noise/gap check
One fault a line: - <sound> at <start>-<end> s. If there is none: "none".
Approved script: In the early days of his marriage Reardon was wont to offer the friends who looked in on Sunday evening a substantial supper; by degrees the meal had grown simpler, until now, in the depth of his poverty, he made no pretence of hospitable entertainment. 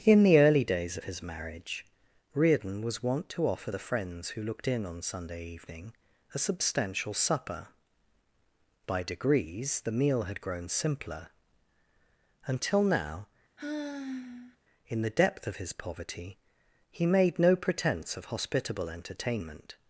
- sigh at 13.6-14.6 s